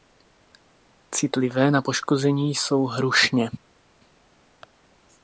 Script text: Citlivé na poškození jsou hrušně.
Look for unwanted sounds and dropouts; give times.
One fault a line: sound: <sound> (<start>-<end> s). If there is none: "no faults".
no faults